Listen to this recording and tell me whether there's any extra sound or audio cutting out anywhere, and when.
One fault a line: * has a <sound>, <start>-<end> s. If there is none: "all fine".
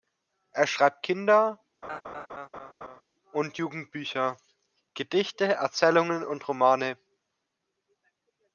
* has a laugh, 1.8-3.0 s